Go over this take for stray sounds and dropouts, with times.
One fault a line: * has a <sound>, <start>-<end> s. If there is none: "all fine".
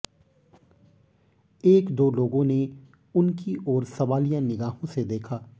all fine